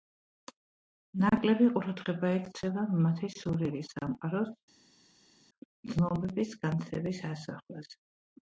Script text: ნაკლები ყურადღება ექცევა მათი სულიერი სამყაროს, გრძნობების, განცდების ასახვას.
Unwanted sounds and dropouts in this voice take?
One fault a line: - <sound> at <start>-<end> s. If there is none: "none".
none